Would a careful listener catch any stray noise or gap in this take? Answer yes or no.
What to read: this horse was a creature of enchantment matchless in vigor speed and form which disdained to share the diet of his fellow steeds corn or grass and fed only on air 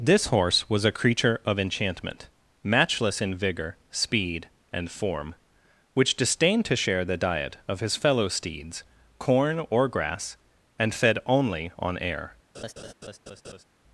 yes